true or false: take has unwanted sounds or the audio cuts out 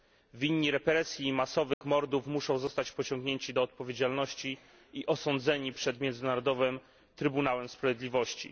true